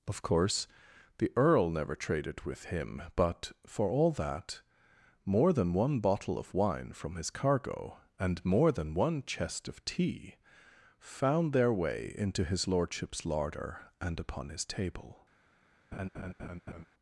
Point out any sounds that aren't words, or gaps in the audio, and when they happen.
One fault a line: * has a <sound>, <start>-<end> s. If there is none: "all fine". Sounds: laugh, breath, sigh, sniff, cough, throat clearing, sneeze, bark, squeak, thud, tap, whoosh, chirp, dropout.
* has a laugh, 15.9-16.9 s